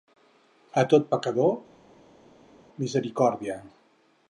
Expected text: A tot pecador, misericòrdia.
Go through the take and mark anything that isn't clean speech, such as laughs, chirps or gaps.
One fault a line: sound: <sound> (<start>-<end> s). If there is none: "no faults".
no faults